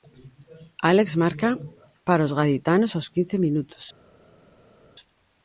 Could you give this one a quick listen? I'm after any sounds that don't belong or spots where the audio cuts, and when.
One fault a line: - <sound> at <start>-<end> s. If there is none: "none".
none